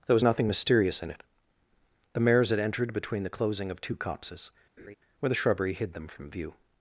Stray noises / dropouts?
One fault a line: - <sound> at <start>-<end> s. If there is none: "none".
- laugh at 4.8-5.0 s